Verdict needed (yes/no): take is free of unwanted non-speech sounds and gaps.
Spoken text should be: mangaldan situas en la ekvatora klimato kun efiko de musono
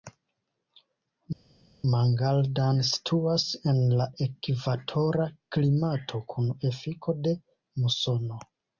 yes